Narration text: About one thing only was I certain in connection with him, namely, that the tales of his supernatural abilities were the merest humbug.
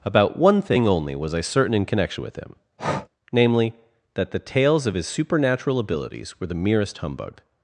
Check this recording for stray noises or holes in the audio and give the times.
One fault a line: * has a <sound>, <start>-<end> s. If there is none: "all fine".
* has a breath, 2.8-3.1 s